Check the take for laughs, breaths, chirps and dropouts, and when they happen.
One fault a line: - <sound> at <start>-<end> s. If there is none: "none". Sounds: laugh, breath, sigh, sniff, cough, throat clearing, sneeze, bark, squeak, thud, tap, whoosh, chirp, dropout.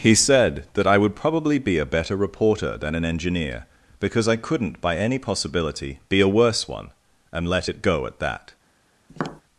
- tap at 9.1-9.4 s